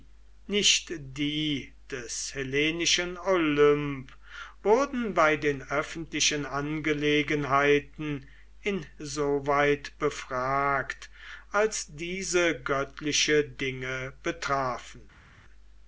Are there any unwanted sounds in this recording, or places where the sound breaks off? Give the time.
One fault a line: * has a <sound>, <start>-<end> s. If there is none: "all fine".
all fine